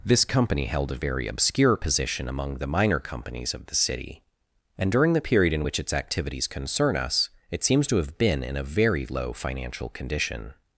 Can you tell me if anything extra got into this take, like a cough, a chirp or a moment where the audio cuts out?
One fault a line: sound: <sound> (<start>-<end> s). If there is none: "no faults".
no faults